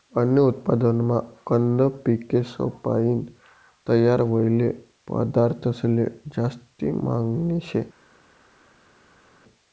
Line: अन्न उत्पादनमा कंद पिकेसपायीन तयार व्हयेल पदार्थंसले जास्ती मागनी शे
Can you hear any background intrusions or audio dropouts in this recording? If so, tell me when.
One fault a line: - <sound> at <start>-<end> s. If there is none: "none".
none